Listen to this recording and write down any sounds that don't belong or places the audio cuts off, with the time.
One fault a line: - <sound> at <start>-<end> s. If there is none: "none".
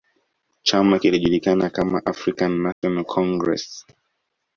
- dropout at 2.7-2.8 s